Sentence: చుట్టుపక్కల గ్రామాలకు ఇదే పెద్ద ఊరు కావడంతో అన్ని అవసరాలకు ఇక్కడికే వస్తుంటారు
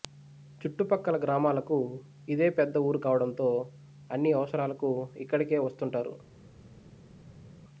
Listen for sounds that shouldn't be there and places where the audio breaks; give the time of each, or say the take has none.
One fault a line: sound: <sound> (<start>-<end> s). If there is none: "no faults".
no faults